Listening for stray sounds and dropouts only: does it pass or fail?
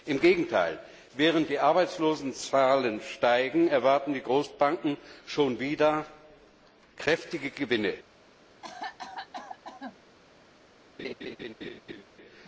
fail